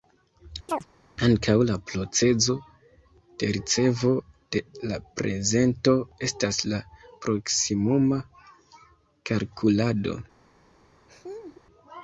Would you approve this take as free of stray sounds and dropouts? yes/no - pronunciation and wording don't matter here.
no